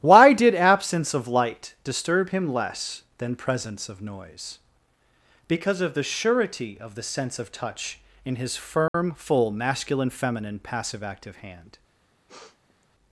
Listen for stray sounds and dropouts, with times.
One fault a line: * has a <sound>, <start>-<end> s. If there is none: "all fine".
* has a dropout, 8.9-8.9 s
* has a sniff, 12.3-12.9 s